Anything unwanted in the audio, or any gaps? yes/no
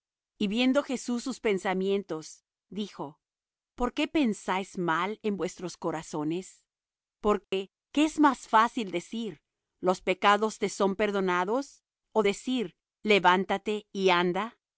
yes